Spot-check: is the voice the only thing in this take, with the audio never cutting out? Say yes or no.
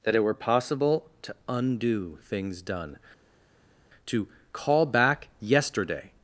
yes